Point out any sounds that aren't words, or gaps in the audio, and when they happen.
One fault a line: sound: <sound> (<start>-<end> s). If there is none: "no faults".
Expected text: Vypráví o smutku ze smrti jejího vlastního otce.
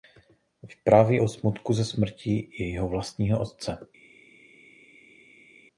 no faults